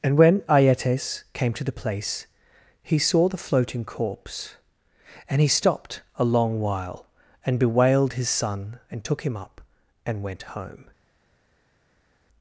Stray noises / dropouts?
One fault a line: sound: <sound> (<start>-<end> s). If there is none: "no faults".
no faults